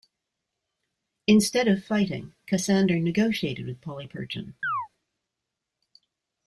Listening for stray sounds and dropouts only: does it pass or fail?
fail